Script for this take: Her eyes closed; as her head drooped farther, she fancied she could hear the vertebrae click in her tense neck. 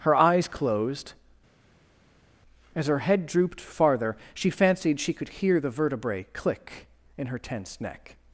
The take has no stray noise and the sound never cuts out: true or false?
true